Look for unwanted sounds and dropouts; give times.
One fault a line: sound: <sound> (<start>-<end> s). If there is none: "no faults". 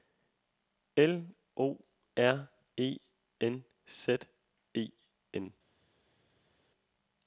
no faults